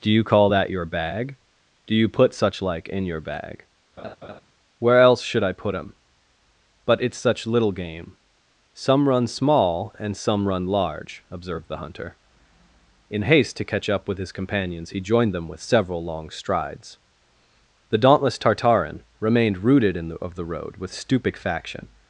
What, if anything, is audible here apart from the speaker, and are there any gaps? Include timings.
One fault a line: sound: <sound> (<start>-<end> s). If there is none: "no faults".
sound: laugh (4.0-4.4 s)